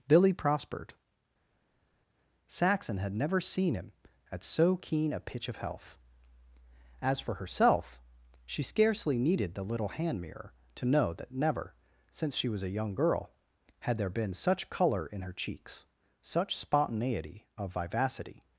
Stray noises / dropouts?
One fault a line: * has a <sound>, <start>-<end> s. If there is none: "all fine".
all fine